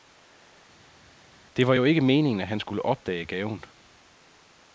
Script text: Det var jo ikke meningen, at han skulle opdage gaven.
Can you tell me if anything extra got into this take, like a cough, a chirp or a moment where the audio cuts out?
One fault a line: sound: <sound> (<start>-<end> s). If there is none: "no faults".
no faults